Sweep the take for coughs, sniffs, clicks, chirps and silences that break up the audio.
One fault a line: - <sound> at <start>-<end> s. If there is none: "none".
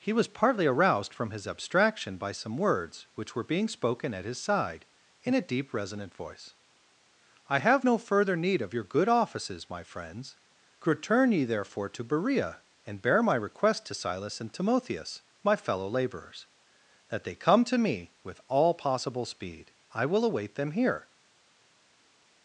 none